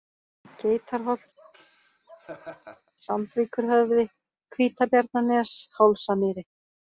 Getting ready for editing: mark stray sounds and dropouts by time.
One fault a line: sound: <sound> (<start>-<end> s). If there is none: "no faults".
sound: laugh (1.4-2.9 s)